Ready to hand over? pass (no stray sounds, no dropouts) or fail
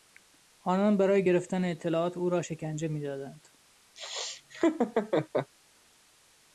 fail